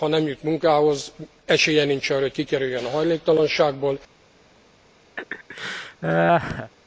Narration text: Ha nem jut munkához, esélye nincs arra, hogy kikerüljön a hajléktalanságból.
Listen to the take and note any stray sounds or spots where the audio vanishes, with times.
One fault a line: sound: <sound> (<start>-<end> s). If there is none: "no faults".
sound: laugh (5.2-6.7 s)